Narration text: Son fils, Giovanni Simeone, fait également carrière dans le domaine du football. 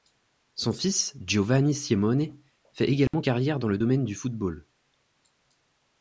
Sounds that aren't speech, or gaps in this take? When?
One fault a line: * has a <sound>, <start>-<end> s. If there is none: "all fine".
* has a dropout, 3.1-3.1 s